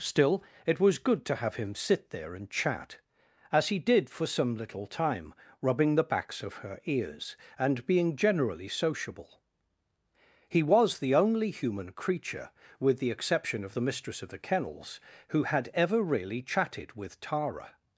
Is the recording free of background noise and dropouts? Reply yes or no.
yes